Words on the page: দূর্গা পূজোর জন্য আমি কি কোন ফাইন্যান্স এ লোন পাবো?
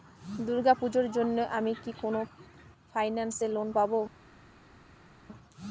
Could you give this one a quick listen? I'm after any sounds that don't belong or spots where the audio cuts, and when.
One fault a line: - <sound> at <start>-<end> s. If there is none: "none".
none